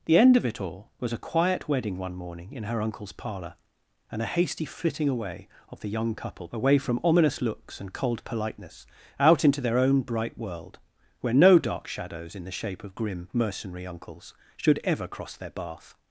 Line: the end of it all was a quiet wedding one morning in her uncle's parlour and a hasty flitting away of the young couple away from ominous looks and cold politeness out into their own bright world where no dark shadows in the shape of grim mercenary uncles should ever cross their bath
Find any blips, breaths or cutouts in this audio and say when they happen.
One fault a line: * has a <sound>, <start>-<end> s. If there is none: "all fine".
all fine